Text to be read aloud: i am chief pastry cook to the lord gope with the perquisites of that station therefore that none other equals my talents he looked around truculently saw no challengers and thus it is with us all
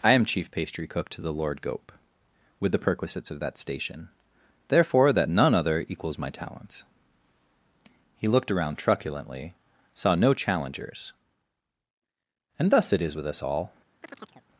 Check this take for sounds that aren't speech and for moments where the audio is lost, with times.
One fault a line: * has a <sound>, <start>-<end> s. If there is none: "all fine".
* has a chirp, 14.0-14.5 s